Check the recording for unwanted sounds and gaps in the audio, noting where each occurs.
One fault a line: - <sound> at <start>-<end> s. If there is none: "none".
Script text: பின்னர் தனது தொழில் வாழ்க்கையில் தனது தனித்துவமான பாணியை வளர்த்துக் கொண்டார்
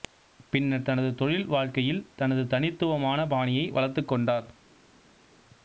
none